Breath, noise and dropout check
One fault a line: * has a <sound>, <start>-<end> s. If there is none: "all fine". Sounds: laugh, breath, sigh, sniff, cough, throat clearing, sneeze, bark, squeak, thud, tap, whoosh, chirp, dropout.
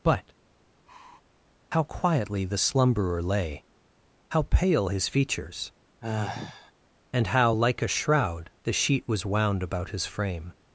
* has a sigh, 0.9-1.2 s
* has a sigh, 6.0-6.7 s